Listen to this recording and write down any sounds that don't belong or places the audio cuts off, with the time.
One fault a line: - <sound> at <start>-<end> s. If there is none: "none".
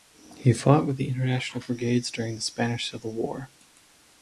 none